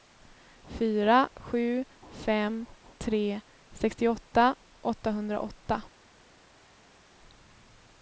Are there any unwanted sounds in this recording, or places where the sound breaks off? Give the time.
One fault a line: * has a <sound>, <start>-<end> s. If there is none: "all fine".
all fine